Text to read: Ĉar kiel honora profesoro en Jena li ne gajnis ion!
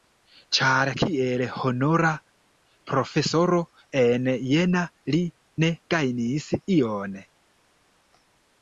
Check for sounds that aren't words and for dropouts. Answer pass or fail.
pass